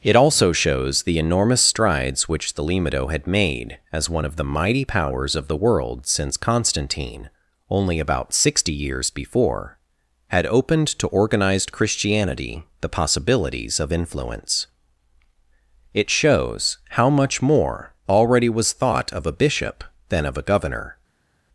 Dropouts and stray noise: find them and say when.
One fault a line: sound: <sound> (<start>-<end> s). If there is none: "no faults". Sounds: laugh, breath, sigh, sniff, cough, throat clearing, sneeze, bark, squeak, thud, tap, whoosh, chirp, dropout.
no faults